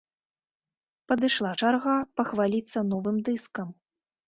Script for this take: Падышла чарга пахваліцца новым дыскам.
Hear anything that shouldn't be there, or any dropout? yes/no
no